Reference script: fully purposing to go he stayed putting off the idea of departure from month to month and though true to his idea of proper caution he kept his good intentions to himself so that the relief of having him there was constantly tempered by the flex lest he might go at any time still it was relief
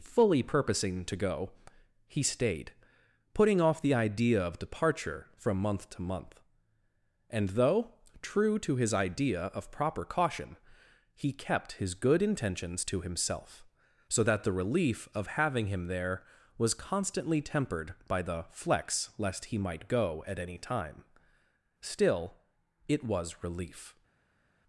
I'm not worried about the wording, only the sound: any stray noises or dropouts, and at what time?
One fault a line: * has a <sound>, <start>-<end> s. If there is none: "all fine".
all fine